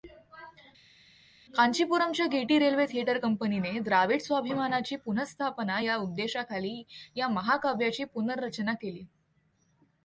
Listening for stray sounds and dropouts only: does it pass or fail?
pass